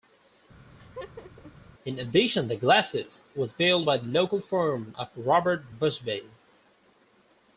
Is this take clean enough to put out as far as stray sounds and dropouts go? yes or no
no